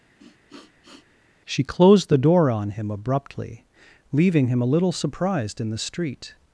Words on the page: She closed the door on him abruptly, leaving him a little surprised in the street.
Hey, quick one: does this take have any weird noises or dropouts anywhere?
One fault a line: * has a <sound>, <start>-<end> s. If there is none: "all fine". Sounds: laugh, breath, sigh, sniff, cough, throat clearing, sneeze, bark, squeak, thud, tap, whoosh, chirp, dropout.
* has a sniff, 0.2-1.1 s